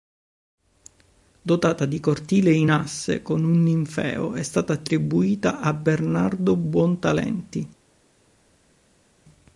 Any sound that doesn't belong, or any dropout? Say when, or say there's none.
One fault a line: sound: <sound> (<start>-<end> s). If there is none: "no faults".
no faults